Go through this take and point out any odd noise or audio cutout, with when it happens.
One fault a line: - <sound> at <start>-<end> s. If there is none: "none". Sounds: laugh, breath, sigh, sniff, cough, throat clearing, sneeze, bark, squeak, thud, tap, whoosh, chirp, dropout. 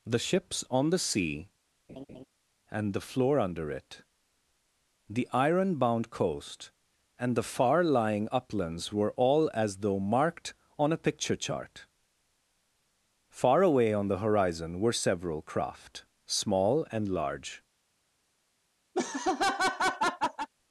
- laugh at 1.9-2.3 s
- laugh at 18.9-20.5 s